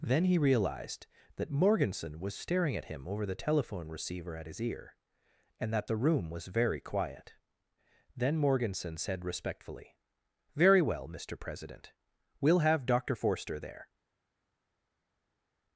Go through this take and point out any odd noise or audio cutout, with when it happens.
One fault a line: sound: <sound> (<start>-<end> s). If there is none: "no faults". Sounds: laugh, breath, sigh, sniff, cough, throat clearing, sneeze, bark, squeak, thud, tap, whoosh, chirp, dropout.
no faults